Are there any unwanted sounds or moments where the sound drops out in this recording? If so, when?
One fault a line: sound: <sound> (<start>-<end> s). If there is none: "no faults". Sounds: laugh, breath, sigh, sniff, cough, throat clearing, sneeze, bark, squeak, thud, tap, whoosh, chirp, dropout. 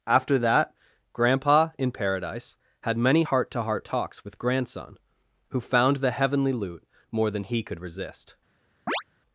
sound: chirp (8.9-9.0 s)